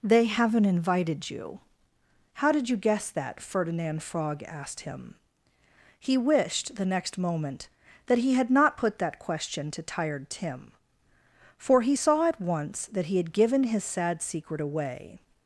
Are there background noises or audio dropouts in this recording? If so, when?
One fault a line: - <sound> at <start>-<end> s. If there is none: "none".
none